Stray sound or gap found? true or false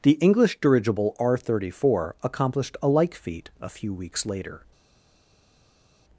false